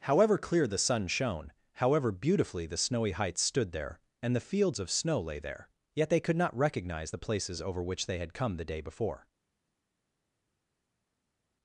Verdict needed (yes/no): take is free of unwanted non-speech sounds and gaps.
yes